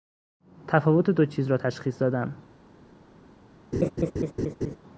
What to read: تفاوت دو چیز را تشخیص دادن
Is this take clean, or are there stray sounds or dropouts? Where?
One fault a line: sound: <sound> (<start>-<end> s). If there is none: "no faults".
sound: laugh (3.7-4.8 s)